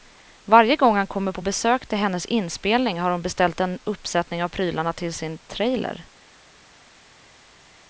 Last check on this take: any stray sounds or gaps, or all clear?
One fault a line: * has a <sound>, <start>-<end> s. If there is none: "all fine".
all fine